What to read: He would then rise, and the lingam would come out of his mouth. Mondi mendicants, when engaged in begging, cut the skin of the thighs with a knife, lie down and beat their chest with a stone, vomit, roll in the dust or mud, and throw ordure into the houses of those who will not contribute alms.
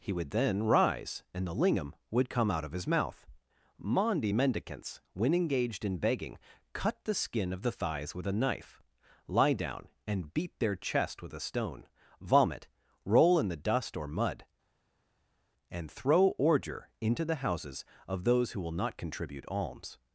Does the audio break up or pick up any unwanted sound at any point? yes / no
no